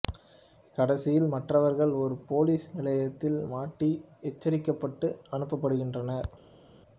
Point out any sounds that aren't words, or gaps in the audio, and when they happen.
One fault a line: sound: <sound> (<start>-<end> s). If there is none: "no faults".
no faults